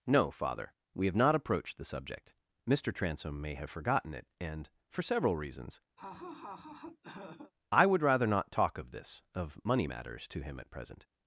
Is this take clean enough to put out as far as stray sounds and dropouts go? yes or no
no